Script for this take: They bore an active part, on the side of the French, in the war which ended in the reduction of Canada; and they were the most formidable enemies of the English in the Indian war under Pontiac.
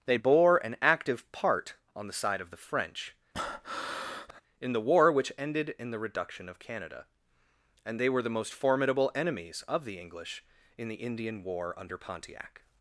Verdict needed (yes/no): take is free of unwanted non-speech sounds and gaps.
no